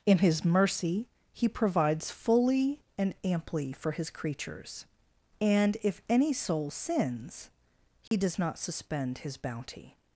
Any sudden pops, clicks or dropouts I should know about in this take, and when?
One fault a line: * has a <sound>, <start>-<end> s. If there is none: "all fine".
* has a dropout, 8.1-8.1 s